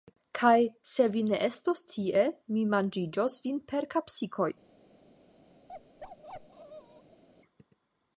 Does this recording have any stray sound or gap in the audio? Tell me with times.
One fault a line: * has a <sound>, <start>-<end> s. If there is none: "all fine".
* has a bark, 5.7-7.2 s